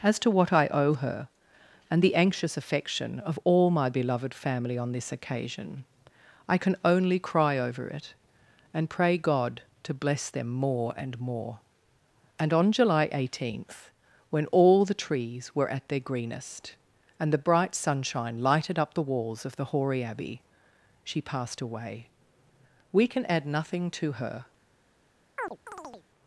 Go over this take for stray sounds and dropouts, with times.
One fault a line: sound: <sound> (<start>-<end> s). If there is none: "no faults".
sound: chirp (25.4-26.1 s)